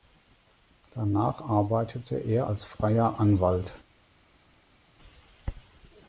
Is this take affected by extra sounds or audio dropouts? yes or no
no